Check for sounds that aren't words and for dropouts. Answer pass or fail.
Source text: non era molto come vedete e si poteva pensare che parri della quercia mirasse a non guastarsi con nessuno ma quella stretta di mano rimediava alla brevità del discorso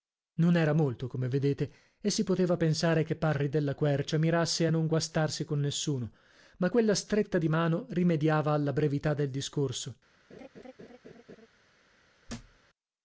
fail